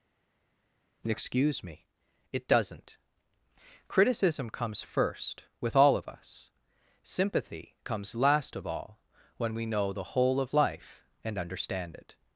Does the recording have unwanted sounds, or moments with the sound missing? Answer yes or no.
no